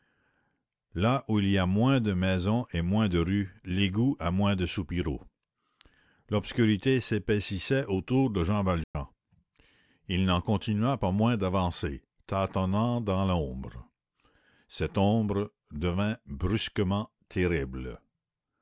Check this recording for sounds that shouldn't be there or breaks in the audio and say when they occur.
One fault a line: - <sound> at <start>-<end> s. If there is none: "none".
- dropout at 8.8-8.9 s